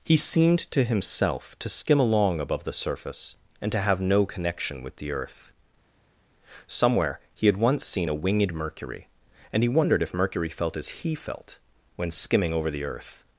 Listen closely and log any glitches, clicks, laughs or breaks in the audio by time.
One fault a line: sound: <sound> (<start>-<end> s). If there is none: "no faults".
no faults